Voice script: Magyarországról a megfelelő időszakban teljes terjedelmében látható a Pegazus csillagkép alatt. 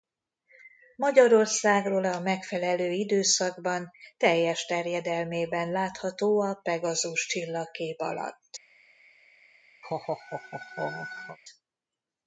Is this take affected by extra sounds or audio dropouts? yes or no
yes